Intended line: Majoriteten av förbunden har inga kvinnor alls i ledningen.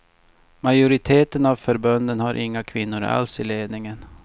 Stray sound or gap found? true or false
false